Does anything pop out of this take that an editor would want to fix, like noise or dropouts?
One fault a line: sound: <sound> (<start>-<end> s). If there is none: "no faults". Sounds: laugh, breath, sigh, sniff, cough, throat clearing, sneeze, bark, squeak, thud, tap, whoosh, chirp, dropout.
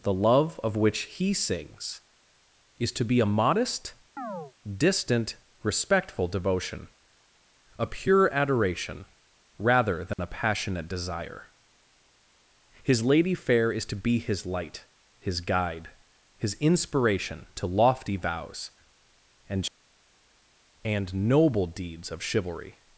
sound: chirp (4.2-4.5 s)
sound: dropout (10.1-10.2 s)